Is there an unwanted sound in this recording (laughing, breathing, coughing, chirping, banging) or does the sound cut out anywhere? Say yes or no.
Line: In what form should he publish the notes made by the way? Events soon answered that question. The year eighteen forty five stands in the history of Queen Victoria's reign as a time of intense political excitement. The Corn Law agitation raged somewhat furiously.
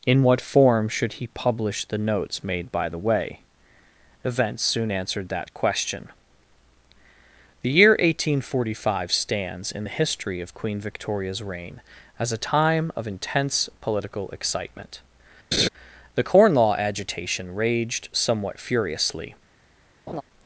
yes